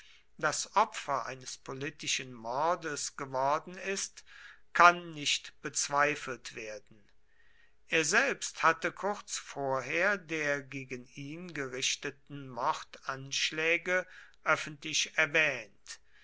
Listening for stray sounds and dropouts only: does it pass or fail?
pass